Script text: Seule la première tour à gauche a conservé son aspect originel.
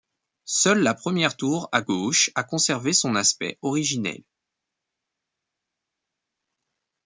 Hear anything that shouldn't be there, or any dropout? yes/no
no